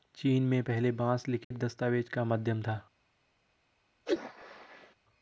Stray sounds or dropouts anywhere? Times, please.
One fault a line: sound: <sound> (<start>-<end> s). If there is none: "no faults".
sound: dropout (1.4-1.5 s)
sound: sneeze (4.0-4.9 s)